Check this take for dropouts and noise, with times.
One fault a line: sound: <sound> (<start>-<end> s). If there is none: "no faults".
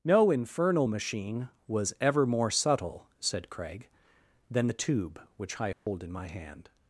sound: dropout (5.7-5.9 s)